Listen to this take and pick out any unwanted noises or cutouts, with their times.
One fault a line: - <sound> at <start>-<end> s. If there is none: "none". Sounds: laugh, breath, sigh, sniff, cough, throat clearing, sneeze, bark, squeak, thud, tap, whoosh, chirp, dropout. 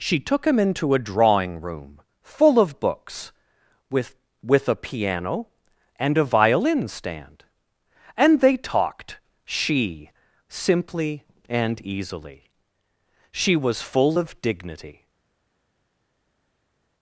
none